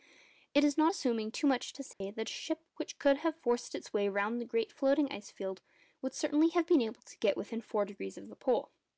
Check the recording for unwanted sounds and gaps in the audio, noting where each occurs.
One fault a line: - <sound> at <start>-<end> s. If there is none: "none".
- dropout at 1.9-2.0 s